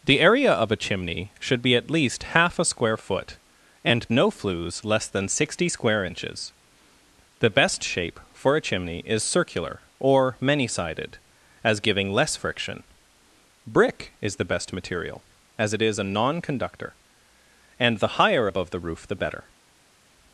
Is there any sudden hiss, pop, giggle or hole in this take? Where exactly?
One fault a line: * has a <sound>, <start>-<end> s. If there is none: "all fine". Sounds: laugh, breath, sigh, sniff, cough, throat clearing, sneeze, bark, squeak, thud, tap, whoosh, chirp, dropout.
all fine